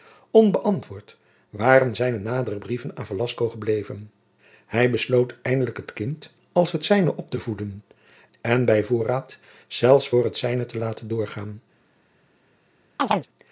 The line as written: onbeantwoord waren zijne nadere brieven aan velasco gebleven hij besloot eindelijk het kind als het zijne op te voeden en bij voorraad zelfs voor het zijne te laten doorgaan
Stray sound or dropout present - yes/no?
yes